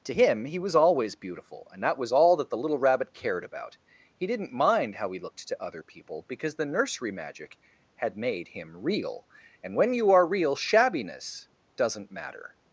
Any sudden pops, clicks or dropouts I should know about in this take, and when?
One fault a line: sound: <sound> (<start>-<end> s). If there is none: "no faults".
no faults